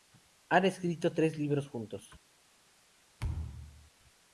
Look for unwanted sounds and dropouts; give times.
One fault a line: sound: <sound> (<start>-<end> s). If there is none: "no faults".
sound: thud (3.2-3.9 s)